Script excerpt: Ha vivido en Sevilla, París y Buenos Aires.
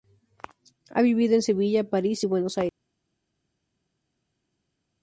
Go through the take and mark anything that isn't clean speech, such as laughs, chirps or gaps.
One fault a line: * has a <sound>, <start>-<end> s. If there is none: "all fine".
all fine